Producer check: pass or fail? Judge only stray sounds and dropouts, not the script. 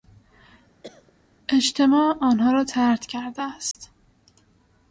fail